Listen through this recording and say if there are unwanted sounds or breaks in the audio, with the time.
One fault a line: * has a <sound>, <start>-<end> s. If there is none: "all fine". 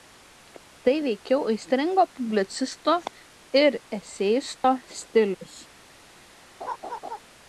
* has a dropout, 4.6-4.6 s
* has a laugh, 6.6-7.2 s